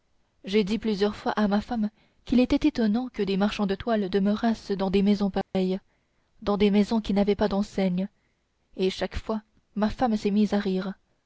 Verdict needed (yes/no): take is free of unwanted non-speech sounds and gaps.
no